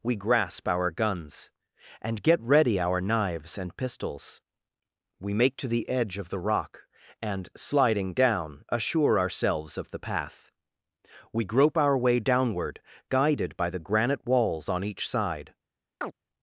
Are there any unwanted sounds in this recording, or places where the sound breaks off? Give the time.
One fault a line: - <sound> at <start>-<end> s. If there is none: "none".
- chirp at 16.0-16.1 s